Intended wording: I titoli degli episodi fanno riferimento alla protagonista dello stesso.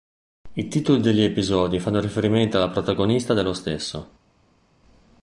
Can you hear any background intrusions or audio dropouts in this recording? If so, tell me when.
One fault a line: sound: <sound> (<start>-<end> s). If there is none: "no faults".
no faults